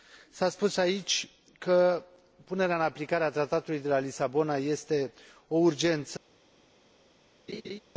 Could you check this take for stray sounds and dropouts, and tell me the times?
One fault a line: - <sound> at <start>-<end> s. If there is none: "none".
- laugh at 7.5-7.8 s